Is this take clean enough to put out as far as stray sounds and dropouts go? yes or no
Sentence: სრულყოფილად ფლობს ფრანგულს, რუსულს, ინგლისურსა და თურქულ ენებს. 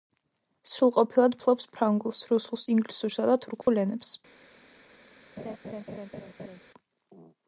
no